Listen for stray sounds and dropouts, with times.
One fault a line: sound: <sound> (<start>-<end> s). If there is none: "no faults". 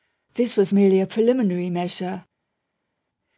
no faults